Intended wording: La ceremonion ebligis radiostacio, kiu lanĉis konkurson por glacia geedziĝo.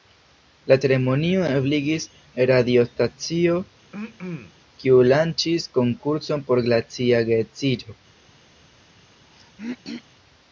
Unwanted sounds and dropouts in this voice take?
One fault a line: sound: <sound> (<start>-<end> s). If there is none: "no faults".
sound: throat clearing (3.9-4.5 s)
sound: throat clearing (9.3-10.0 s)